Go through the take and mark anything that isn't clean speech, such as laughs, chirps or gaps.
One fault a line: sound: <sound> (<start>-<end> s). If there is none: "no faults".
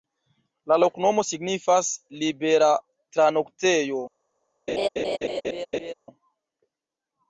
sound: laugh (4.7-5.9 s)